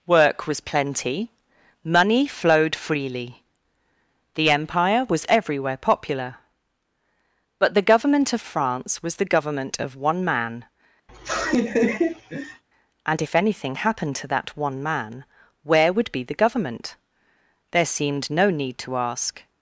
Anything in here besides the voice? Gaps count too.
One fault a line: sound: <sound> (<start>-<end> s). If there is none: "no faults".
sound: laugh (11.1-12.6 s)